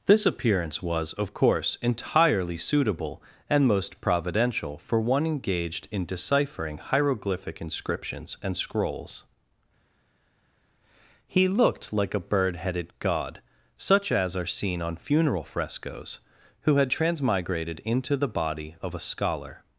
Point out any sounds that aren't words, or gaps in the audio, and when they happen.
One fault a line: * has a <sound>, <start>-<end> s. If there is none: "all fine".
all fine